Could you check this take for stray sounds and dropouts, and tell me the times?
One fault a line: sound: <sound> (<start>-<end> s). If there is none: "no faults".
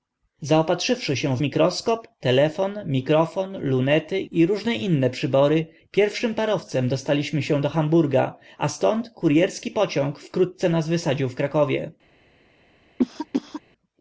sound: cough (13.0-13.6 s)